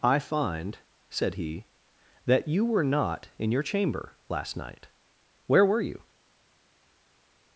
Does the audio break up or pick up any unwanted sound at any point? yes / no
no